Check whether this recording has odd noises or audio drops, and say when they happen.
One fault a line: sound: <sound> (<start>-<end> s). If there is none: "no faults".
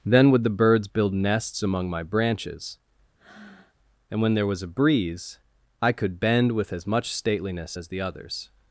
sound: breath (3.2-3.8 s)